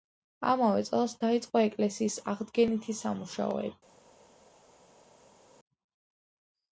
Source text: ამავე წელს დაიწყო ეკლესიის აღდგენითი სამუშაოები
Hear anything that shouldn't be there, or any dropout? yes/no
no